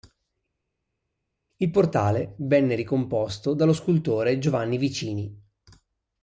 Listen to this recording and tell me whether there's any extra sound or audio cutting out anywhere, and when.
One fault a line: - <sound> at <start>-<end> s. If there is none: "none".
none